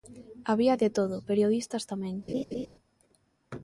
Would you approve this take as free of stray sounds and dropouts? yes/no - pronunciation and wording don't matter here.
no